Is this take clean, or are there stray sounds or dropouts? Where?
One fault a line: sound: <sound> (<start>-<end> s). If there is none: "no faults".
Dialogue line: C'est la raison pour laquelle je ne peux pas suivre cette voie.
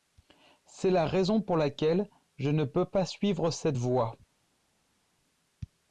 no faults